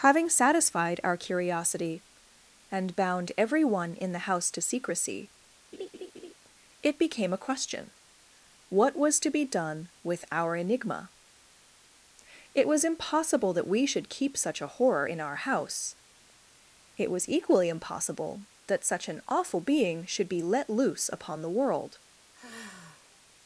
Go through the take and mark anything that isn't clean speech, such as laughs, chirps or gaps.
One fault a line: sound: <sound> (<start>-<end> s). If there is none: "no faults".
sound: laugh (5.7-6.3 s)
sound: sigh (22.3-23.2 s)